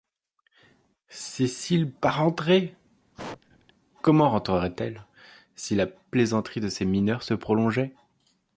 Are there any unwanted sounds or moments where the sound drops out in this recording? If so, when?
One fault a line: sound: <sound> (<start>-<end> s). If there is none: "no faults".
sound: sneeze (3.1-3.7 s)